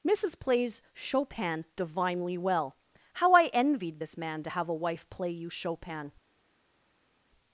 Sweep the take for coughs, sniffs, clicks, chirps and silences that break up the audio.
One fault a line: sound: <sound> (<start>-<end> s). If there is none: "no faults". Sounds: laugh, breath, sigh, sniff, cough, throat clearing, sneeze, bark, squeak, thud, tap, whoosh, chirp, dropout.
no faults